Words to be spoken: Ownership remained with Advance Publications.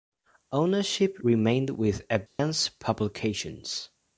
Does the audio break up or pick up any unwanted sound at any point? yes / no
yes